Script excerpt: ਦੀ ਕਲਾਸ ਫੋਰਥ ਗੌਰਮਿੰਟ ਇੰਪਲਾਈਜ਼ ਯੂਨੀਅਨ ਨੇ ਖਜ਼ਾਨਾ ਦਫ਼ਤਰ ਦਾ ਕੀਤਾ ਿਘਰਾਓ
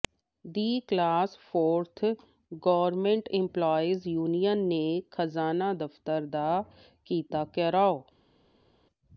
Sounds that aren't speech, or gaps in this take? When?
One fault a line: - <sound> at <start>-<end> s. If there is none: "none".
none